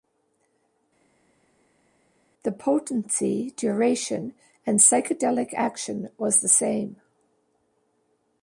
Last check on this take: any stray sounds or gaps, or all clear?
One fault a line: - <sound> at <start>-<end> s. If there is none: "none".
none